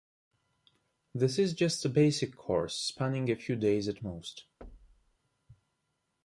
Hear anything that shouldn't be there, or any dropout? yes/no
yes